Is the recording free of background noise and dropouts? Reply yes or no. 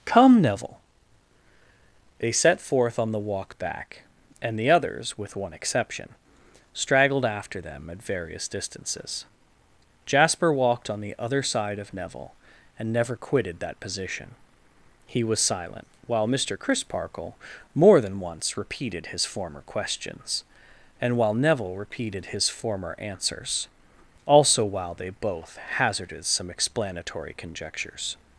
yes